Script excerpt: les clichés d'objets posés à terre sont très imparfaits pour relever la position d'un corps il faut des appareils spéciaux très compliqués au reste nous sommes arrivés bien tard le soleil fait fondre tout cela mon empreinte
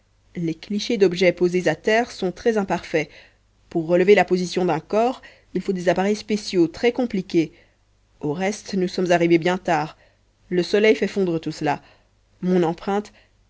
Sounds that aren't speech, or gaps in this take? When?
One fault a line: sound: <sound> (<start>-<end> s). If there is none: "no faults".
no faults